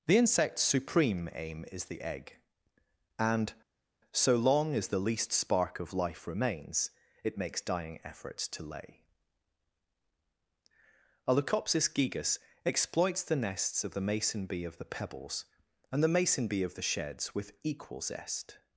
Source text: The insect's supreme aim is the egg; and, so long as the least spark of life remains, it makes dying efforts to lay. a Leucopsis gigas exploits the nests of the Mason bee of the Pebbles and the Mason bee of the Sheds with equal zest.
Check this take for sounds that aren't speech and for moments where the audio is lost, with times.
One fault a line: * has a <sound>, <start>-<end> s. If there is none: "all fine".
all fine